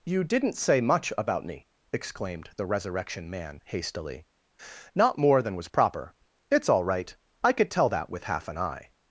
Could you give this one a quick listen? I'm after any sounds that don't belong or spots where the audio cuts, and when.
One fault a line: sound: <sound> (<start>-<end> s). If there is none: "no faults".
no faults